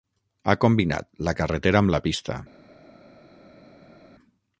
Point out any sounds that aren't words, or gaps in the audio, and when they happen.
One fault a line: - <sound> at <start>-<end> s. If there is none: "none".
none